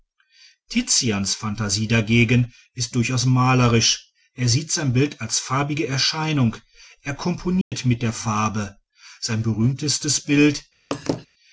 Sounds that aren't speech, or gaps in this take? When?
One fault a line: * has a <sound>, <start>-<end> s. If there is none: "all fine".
* has a dropout, 7.6-7.7 s
* has a laugh, 10.9-11.3 s